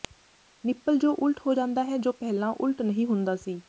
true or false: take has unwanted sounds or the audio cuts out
false